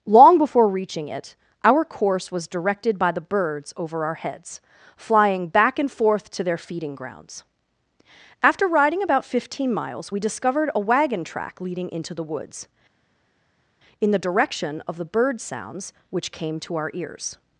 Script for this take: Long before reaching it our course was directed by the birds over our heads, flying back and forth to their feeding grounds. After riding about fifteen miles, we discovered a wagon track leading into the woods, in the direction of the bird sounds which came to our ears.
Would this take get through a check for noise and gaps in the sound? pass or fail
pass